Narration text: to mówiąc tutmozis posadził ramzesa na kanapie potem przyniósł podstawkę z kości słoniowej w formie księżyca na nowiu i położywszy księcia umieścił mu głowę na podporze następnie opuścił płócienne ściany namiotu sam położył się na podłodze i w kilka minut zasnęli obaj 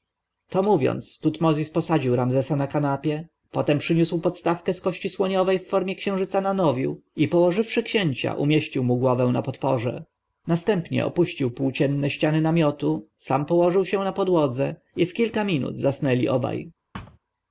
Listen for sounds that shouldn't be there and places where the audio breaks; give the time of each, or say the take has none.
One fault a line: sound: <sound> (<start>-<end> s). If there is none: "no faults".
sound: thud (16.9-17.2 s)